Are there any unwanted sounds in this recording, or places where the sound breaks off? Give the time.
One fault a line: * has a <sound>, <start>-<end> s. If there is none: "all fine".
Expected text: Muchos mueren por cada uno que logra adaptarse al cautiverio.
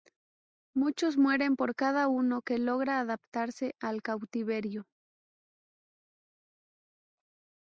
all fine